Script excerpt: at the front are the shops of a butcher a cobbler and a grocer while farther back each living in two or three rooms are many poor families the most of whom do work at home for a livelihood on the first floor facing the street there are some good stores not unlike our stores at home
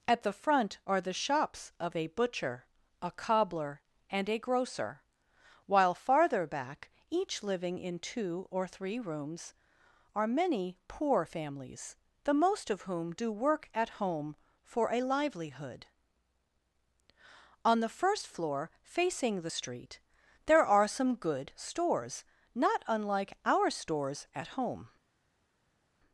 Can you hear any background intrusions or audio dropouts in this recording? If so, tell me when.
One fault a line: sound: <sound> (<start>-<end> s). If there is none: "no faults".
no faults